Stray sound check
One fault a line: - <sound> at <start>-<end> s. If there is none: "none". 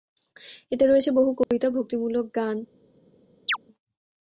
- dropout at 1.4-1.5 s
- chirp at 3.5-3.6 s